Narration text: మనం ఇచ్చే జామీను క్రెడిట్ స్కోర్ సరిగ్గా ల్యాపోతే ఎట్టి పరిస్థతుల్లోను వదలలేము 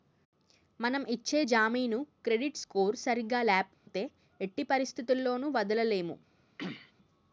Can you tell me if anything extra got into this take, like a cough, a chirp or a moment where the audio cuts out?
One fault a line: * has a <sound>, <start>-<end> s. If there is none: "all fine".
* has a dropout, 3.7-3.9 s
* has a throat clearing, 6.6-6.9 s